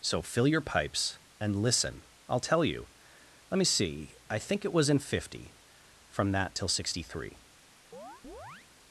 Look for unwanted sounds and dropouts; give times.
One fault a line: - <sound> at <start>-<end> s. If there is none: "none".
- chirp at 7.9-8.7 s